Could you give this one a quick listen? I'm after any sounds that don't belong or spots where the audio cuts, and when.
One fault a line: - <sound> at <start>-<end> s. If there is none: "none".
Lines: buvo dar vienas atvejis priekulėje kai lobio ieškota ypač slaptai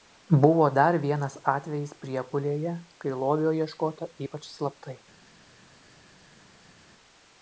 none